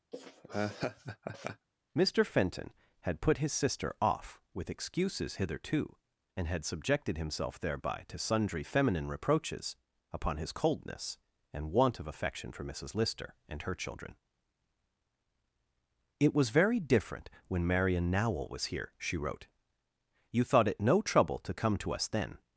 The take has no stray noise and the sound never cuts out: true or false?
false